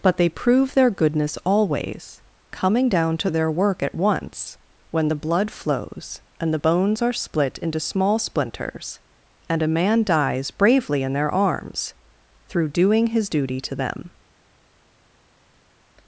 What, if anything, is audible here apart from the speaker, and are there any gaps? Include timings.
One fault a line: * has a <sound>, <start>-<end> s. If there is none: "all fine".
all fine